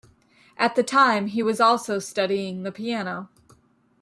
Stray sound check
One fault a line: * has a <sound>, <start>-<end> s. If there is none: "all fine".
all fine